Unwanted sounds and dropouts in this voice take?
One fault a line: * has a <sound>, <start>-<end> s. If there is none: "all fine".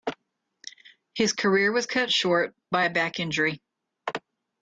all fine